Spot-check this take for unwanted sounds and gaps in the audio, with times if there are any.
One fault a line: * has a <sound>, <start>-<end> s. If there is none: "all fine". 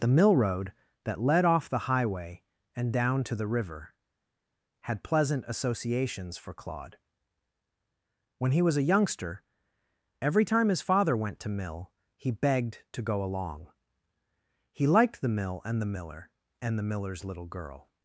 all fine